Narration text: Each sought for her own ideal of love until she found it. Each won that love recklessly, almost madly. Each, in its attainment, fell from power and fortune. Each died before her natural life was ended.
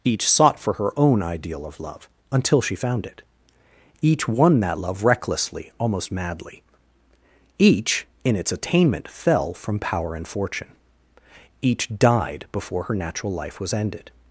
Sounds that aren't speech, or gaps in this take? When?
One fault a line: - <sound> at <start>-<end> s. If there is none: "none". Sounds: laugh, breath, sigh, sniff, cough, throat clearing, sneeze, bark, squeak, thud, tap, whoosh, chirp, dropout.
none